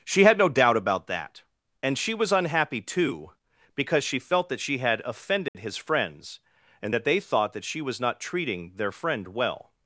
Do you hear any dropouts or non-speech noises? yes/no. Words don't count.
yes